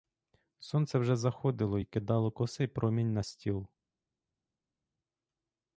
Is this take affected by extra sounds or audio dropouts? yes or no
no